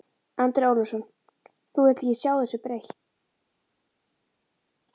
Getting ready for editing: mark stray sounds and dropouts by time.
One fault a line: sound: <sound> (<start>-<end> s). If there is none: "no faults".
no faults